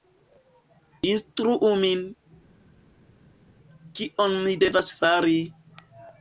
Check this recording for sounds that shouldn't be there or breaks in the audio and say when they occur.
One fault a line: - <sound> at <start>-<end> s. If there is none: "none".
none